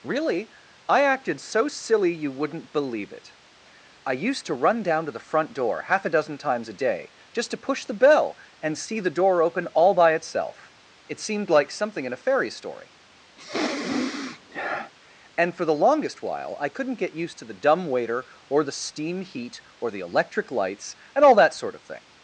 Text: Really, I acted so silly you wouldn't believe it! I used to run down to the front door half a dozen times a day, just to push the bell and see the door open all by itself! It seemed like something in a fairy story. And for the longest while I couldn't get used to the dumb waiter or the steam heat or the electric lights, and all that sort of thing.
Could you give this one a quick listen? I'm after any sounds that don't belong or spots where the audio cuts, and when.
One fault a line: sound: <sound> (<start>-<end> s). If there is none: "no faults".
sound: sniff (13.4-14.9 s)